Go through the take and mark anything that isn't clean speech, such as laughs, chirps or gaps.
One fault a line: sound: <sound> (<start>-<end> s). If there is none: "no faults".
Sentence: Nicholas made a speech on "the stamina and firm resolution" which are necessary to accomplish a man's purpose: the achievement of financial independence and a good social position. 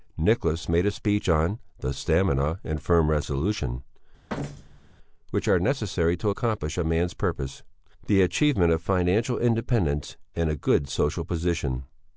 sound: thud (4.3-4.9 s)